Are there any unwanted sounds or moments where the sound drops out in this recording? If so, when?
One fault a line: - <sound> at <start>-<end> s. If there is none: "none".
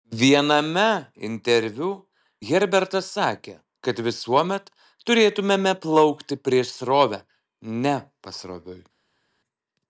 none